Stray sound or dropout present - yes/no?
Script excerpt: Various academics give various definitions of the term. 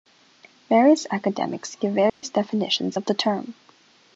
yes